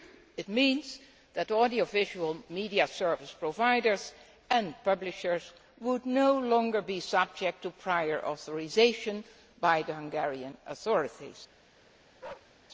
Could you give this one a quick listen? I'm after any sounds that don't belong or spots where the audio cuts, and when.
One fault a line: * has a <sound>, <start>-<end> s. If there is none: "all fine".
* has a bark, 12.2-12.5 s